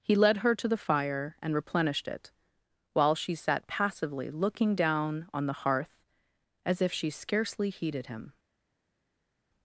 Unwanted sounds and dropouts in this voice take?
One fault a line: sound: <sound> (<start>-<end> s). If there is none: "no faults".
no faults